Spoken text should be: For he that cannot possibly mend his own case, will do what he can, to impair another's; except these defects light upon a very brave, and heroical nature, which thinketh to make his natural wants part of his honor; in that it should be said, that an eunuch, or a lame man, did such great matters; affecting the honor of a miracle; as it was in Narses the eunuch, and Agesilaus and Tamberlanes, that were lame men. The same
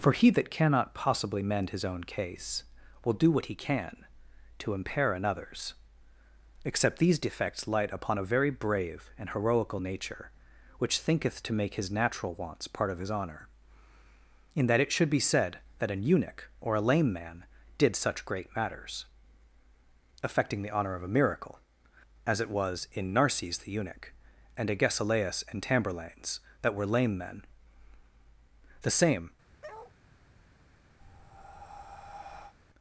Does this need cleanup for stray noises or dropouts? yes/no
yes